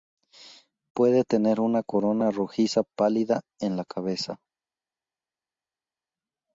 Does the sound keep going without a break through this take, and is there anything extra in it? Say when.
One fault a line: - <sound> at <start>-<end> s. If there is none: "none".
none